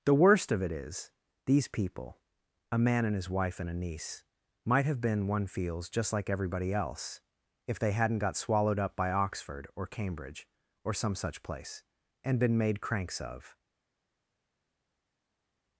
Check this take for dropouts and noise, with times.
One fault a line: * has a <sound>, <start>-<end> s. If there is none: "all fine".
all fine